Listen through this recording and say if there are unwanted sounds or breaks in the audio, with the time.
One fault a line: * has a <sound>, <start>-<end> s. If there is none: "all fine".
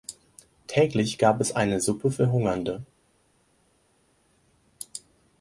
all fine